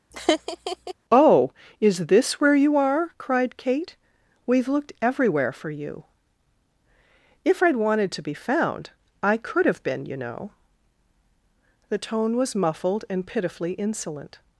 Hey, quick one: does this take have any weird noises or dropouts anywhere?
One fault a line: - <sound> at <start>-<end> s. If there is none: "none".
- laugh at 0.1-0.9 s